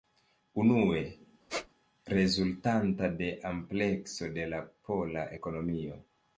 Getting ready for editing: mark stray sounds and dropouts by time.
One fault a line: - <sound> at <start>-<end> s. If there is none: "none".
- squeak at 1.5-1.7 s